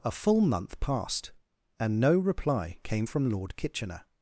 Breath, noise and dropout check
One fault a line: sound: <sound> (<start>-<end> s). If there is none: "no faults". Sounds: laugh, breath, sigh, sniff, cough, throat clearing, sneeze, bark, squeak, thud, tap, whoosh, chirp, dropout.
no faults